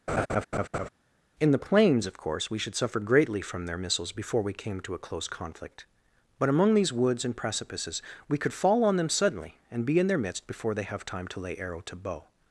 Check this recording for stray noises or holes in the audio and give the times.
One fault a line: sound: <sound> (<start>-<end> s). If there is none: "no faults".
sound: laugh (0.1-0.9 s)